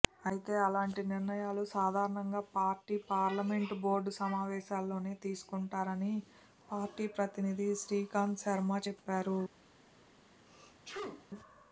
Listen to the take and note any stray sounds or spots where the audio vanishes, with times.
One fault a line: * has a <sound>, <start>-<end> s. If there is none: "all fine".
* has a sneeze, 10.5-11.2 s